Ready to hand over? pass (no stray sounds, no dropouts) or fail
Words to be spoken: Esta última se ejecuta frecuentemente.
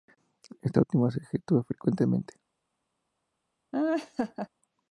fail